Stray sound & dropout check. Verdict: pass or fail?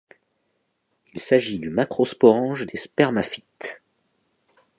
pass